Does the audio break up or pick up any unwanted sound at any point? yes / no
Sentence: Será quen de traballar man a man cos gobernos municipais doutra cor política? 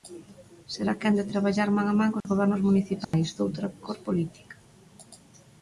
yes